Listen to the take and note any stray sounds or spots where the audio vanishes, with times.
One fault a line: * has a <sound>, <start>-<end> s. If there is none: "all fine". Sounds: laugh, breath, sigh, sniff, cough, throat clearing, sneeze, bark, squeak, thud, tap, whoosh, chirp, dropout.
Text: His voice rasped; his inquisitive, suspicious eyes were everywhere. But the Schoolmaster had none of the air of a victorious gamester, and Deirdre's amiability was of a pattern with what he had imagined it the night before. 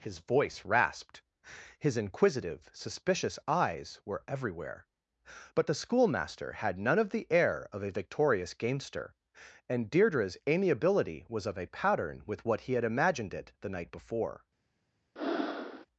* has a breath, 15.2-15.9 s